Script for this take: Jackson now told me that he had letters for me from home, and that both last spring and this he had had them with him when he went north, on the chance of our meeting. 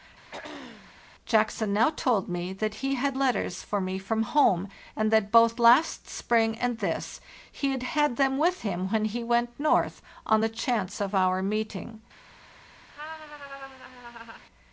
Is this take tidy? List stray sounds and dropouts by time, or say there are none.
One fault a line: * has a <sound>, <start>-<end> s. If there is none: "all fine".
* has a throat clearing, 0.3-0.9 s
* has a laugh, 12.9-14.4 s